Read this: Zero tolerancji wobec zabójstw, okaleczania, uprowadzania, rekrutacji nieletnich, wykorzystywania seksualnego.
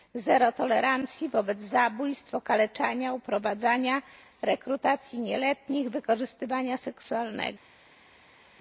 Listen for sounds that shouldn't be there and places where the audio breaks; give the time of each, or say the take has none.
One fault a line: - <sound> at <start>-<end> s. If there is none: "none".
none